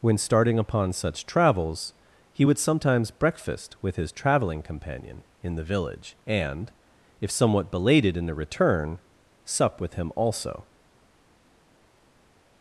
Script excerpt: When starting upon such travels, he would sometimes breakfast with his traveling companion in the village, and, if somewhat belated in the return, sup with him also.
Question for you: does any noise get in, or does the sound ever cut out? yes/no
no